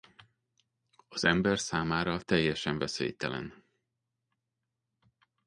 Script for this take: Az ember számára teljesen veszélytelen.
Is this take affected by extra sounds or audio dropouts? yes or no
no